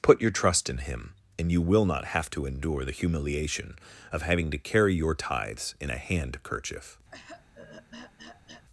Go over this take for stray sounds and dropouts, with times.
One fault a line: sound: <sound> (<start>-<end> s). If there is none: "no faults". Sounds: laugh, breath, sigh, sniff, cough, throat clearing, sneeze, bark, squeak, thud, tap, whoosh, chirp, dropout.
sound: throat clearing (7.1-8.7 s)